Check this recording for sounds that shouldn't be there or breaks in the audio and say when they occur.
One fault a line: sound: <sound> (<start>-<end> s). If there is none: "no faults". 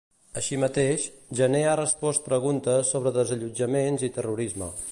no faults